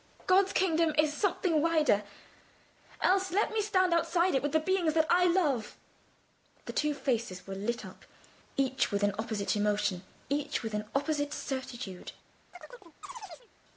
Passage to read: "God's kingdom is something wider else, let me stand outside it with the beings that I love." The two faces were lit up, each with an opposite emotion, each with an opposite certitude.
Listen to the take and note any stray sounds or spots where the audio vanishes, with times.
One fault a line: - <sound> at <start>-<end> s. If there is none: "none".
- chirp at 12.5-13.5 s